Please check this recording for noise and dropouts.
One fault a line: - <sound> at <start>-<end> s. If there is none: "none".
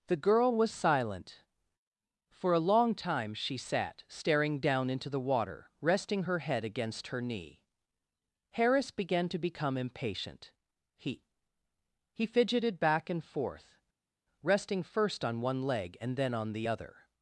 none